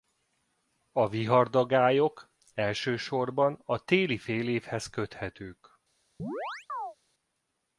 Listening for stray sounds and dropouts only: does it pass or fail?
fail